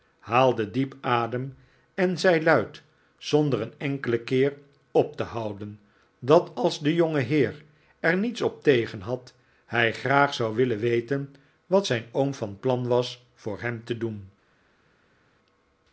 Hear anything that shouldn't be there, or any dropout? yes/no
no